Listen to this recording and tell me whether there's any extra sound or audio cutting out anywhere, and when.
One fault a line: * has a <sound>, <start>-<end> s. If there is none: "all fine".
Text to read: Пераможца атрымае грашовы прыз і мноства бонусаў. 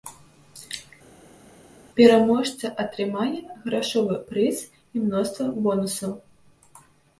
all fine